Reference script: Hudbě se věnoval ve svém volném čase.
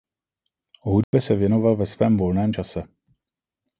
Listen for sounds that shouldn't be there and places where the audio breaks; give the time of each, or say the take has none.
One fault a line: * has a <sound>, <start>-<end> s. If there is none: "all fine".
* has a dropout, 1.0-1.1 s